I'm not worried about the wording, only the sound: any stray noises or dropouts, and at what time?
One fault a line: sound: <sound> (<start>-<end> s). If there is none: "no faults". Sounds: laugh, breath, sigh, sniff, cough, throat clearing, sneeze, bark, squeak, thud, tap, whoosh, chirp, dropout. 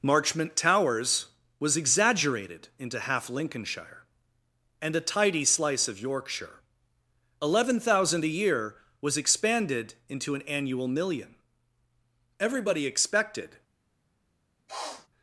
sound: sniff (14.7-15.1 s)